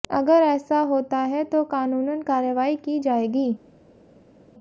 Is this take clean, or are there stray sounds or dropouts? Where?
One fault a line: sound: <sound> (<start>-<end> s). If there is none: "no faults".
no faults